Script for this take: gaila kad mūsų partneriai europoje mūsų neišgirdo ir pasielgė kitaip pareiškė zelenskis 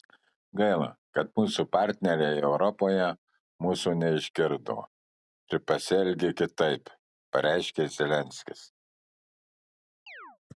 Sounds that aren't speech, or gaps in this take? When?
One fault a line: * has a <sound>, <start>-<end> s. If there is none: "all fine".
* has a chirp, 10.1-10.4 s